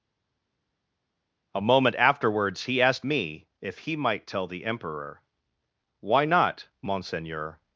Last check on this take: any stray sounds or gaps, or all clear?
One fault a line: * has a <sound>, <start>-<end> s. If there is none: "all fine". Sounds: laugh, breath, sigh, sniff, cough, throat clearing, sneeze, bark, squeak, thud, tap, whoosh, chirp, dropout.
all fine